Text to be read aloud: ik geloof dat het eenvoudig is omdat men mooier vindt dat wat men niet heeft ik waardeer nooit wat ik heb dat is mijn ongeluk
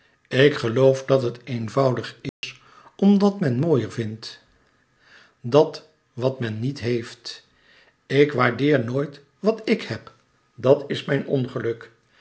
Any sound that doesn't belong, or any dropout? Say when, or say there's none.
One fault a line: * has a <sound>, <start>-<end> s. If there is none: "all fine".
* has a dropout, 2.3-2.4 s